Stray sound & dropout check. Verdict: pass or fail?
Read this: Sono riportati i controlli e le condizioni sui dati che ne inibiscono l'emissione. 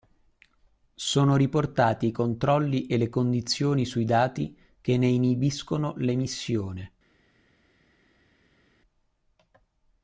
pass